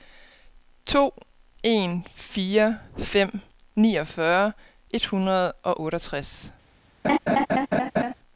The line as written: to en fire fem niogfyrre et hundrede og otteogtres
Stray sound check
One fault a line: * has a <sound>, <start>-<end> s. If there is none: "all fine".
* has a laugh, 7.0-8.1 s